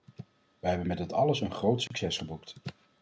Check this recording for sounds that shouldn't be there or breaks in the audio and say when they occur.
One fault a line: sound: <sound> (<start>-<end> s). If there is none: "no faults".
sound: dropout (1.9-1.9 s)